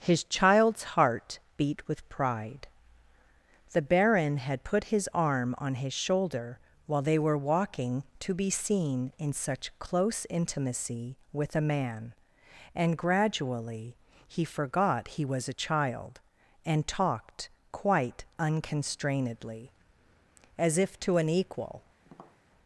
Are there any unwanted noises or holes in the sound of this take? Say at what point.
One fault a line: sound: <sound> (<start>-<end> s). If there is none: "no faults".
sound: tap (22.0-22.4 s)